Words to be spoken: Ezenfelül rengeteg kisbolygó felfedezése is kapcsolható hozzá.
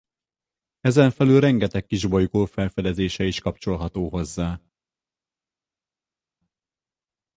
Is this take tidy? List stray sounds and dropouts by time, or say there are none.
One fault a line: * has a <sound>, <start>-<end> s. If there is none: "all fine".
all fine